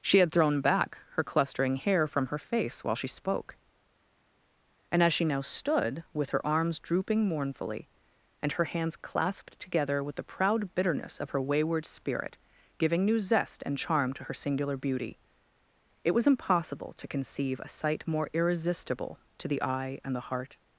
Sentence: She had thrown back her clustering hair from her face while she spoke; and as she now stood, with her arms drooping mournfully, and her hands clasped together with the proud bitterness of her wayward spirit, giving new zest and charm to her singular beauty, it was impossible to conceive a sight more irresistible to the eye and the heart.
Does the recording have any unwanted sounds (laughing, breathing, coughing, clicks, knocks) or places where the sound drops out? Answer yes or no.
no